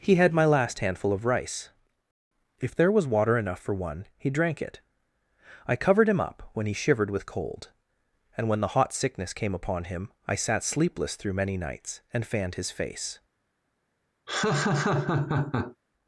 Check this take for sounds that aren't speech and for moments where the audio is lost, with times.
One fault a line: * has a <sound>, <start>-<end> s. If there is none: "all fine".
* has a laugh, 14.3-15.8 s